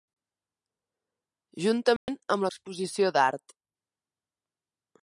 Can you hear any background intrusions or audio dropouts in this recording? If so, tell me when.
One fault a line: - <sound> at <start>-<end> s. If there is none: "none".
- dropout at 2.0-2.1 s